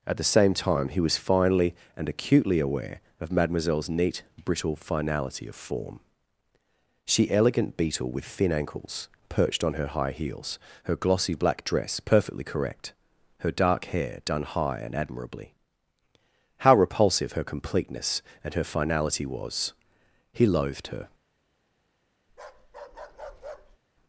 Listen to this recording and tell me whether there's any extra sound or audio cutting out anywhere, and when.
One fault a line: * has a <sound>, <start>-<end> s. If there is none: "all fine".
* has a bark, 22.3-23.8 s